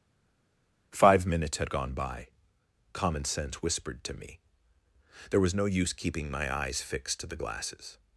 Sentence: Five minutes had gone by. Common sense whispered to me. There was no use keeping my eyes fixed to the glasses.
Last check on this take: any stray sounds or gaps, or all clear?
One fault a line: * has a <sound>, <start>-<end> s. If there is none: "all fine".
all fine